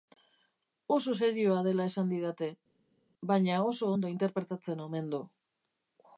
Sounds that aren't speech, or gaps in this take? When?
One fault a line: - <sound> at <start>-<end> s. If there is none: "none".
none